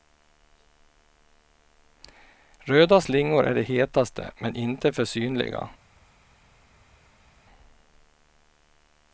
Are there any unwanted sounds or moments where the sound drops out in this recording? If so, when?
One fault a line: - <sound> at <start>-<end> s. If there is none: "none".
none